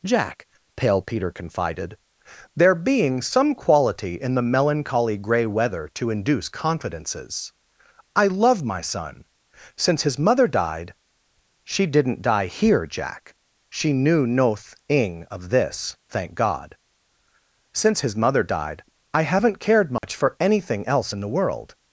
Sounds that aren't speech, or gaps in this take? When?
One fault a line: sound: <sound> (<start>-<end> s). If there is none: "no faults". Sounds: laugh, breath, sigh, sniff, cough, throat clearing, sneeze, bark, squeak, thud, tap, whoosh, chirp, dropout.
sound: dropout (20.0-20.0 s)